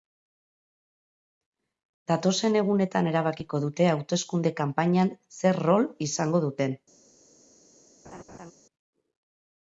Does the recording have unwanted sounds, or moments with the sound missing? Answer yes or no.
yes